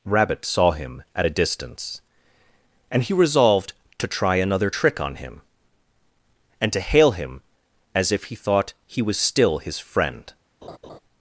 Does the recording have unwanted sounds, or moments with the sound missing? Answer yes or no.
yes